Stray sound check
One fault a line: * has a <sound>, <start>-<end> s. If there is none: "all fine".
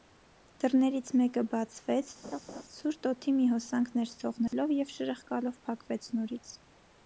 * has a laugh, 2.2-2.6 s
* has a dropout, 4.5-4.5 s